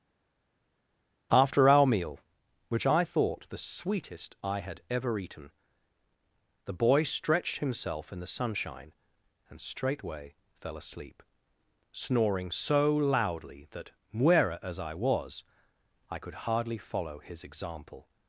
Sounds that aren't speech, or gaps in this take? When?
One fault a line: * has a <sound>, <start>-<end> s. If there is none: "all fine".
all fine